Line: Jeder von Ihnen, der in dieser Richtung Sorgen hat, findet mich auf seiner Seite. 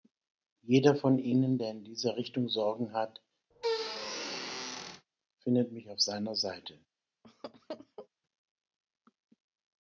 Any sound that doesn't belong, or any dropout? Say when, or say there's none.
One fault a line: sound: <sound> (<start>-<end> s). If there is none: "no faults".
sound: squeak (3.5-5.1 s)
sound: laugh (7.2-8.1 s)